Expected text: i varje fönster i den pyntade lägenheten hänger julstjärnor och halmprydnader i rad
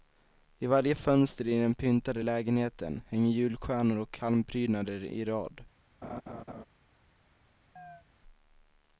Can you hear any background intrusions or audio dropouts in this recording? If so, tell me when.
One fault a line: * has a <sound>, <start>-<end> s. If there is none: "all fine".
* has a laugh, 6.0-6.6 s
* has a chirp, 7.8-8.0 s